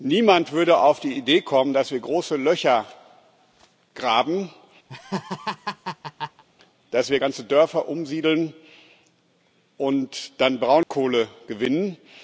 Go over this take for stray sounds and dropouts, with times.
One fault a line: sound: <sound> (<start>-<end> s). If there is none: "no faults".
sound: laugh (4.9-6.4 s)
sound: dropout (10.8-10.9 s)